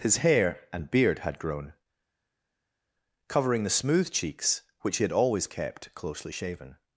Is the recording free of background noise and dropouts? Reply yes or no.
yes